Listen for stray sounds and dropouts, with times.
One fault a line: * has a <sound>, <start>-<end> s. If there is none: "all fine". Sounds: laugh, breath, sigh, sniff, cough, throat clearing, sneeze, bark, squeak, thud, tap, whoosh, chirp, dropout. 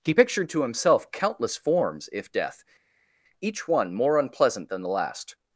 all fine